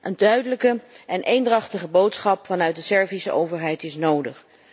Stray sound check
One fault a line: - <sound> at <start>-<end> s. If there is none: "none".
none